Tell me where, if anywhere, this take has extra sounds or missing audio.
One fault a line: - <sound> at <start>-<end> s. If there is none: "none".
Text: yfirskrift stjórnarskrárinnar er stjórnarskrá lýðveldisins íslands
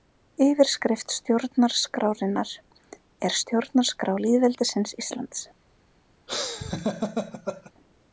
- laugh at 6.3-7.7 s